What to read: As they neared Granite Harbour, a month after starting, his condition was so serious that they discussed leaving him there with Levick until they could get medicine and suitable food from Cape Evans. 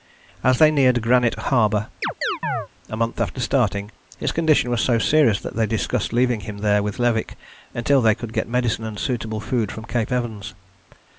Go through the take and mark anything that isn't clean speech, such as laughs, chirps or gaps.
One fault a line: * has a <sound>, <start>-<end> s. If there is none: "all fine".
* has a chirp, 2.0-2.7 s